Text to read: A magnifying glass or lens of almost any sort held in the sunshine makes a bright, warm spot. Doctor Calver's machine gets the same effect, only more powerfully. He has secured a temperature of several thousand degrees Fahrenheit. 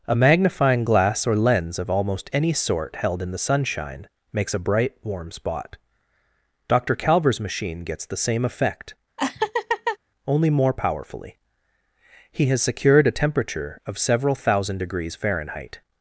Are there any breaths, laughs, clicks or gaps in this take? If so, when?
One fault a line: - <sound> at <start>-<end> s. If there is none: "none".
- laugh at 9.2-10.0 s